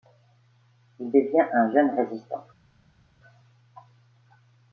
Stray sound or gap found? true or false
false